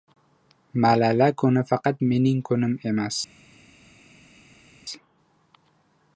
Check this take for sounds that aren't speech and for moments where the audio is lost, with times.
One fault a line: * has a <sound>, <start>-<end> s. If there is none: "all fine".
all fine